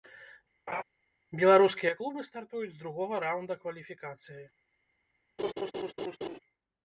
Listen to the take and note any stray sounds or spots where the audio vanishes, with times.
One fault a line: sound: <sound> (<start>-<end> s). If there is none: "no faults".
sound: laugh (0.7-0.8 s)
sound: laugh (5.4-6.4 s)